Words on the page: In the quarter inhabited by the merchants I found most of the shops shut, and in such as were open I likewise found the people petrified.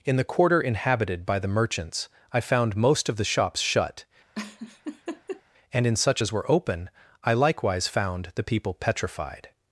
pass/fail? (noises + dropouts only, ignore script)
fail